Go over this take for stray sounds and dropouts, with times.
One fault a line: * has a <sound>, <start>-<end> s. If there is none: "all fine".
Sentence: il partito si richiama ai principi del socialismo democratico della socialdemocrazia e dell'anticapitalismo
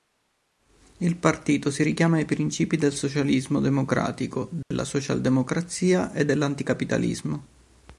* has a dropout, 4.6-4.7 s